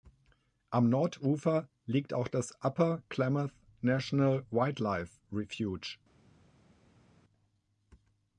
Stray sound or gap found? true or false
false